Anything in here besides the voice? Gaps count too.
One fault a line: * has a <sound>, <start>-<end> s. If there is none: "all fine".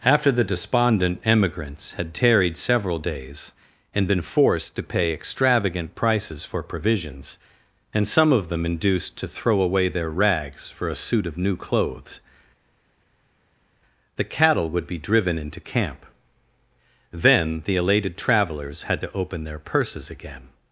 all fine